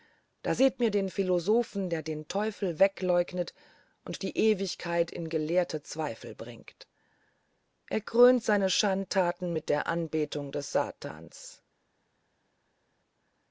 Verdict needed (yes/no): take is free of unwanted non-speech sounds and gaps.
yes